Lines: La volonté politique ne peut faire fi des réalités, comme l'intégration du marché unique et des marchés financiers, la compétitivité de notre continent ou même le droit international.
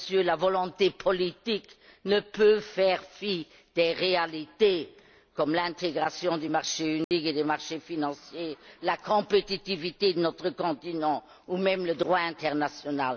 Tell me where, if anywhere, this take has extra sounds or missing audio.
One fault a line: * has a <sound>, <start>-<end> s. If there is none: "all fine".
* has a dropout, 7.0-7.1 s